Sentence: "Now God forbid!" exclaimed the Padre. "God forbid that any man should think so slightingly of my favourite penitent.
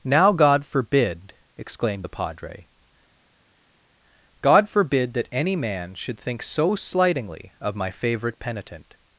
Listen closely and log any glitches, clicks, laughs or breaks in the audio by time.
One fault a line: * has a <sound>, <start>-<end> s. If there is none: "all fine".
all fine